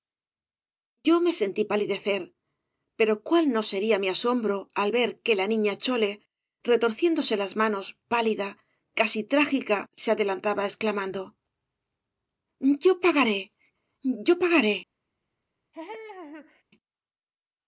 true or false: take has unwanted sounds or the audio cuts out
true